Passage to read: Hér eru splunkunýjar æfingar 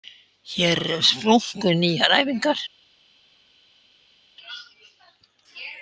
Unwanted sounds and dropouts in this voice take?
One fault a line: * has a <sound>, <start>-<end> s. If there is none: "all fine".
all fine